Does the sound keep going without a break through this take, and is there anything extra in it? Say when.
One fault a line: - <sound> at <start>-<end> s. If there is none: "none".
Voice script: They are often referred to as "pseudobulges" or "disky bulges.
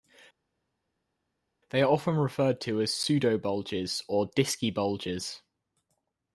none